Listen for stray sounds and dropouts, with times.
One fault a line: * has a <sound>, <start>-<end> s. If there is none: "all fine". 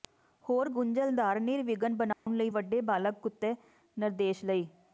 * has a dropout, 2.1-2.3 s